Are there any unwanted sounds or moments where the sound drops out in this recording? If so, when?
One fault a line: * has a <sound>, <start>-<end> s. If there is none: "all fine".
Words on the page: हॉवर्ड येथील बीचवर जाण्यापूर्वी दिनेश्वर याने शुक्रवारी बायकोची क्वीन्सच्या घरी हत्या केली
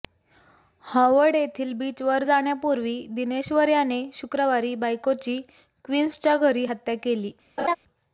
* has a laugh, 7.6-7.8 s